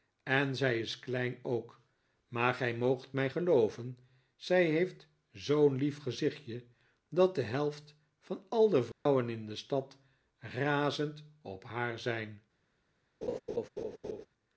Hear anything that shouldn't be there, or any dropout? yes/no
yes